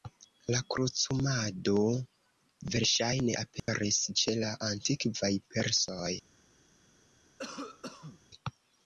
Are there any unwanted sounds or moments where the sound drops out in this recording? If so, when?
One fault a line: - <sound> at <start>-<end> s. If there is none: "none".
- dropout at 3.6-3.7 s
- cough at 7.4-8.2 s